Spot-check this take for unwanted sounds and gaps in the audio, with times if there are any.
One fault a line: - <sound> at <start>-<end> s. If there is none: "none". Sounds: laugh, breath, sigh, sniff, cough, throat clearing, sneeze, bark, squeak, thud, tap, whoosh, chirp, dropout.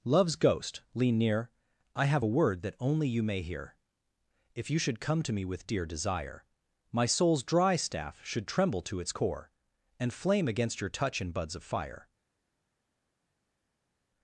none